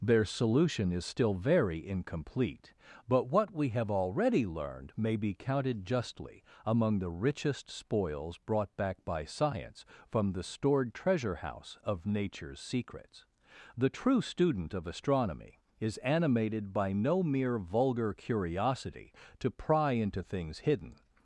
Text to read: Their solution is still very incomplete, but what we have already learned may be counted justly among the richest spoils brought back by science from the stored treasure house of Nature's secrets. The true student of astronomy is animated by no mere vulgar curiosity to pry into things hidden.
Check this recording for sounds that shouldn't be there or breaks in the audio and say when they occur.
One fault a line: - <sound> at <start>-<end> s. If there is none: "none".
none